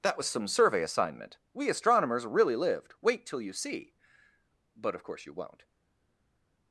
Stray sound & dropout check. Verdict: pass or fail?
pass